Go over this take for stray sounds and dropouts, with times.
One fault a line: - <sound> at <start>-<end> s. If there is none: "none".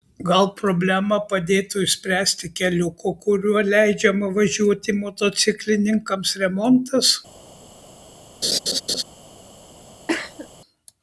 - laugh at 8.4-9.0 s
- cough at 10.1-10.5 s